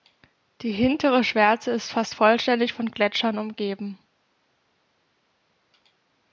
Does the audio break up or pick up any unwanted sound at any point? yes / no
no